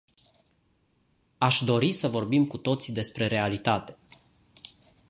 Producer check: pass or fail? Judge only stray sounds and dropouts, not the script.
pass